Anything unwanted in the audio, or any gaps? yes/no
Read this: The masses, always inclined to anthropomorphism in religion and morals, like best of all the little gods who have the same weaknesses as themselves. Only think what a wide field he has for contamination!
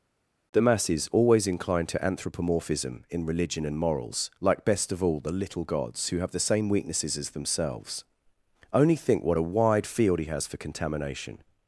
no